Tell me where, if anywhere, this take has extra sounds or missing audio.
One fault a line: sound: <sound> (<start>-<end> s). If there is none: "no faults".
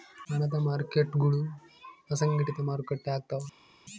no faults